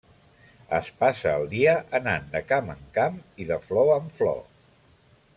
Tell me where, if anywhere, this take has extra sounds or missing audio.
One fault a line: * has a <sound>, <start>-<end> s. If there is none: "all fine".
all fine